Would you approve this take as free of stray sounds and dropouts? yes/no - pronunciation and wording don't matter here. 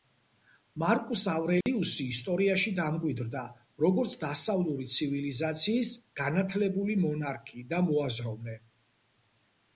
no